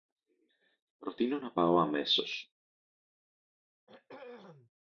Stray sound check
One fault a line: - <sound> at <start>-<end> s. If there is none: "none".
- throat clearing at 3.9-4.7 s